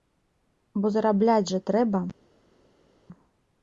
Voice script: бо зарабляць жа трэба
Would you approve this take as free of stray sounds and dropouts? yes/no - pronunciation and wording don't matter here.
yes